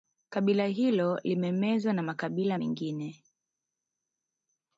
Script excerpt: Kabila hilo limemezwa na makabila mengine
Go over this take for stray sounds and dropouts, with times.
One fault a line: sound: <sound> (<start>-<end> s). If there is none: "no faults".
no faults